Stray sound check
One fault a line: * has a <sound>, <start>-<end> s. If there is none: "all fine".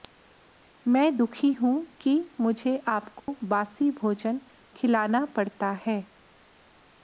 * has a dropout, 3.2-3.3 s